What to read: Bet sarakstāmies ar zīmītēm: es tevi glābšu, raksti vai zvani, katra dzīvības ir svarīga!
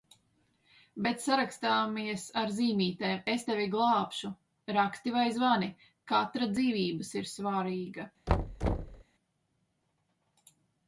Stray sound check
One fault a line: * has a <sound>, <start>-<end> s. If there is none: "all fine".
* has a thud, 8.3-9.0 s